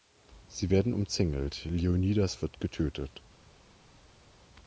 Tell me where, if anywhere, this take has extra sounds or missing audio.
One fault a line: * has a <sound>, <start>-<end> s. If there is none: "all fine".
all fine